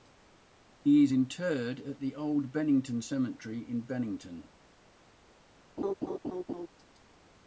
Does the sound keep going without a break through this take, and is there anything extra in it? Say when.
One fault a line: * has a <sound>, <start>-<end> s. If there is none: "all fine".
* has a laugh, 5.8-6.7 s